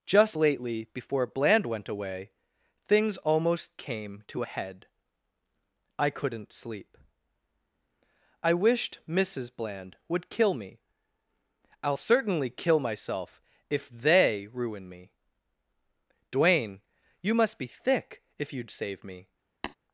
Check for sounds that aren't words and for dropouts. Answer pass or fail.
fail